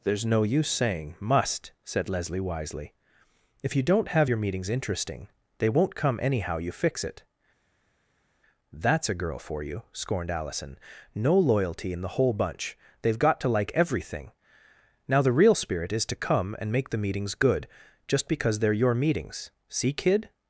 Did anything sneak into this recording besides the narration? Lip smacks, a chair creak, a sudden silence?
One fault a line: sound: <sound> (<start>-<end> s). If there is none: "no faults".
no faults